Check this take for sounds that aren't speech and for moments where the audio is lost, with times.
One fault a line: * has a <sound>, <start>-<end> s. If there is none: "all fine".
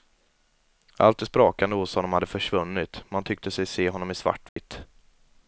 * has a dropout, 4.5-4.6 s